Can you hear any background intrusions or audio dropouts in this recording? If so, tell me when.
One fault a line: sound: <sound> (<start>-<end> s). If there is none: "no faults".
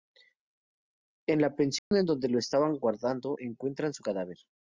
sound: dropout (1.8-1.9 s)